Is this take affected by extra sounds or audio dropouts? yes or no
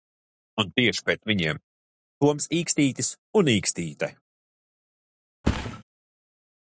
yes